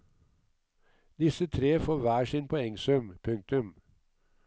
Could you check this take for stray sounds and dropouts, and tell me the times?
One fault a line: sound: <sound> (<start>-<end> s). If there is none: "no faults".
no faults